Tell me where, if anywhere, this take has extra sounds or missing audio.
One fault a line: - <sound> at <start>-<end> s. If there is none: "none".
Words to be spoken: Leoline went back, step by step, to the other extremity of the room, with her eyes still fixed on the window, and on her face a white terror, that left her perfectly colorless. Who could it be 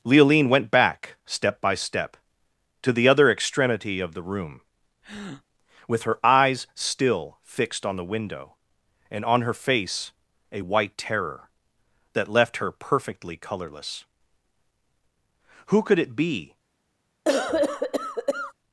- breath at 5.0-5.4 s
- cough at 17.3-18.5 s